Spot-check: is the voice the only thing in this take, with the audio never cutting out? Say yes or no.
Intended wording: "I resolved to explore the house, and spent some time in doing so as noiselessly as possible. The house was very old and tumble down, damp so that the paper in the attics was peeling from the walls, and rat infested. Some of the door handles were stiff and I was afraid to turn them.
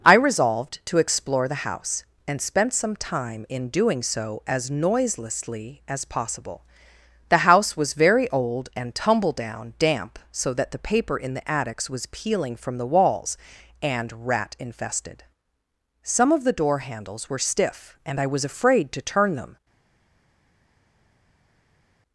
yes